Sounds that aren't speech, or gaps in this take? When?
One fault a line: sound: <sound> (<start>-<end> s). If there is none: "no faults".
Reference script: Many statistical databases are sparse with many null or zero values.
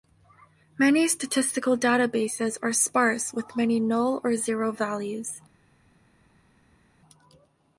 no faults